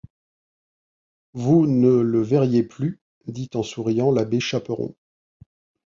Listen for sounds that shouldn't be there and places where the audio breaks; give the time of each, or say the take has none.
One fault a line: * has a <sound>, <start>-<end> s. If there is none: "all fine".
all fine